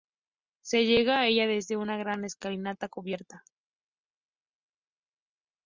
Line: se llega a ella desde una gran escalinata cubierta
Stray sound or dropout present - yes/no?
no